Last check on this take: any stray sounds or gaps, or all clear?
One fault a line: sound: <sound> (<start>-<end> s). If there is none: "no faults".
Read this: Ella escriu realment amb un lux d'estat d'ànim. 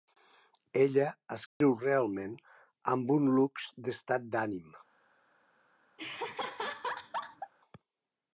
sound: dropout (1.5-1.6 s)
sound: laugh (6.0-7.5 s)